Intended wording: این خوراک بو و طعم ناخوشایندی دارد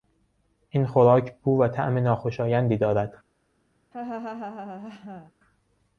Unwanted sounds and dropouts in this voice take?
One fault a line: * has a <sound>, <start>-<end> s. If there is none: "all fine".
* has a laugh, 3.9-5.3 s